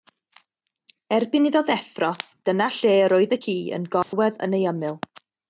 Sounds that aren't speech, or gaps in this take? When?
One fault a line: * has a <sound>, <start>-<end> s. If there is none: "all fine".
* has a dropout, 4.0-4.1 s